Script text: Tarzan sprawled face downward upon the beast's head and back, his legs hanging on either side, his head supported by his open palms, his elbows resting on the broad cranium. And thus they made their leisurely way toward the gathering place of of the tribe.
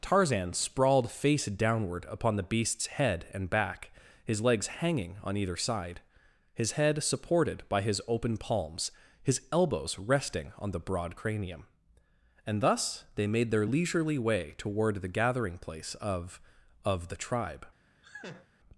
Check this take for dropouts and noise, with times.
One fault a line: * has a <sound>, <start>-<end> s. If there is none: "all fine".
* has a laugh, 18.0-18.5 s